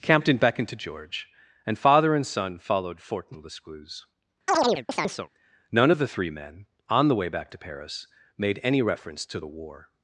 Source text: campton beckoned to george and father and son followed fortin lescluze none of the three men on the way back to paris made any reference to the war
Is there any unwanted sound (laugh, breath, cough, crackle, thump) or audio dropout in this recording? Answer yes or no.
yes